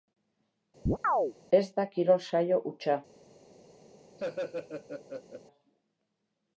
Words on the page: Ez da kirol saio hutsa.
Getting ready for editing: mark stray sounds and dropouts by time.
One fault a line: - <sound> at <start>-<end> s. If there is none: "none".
- chirp at 0.9-1.3 s
- laugh at 4.2-5.4 s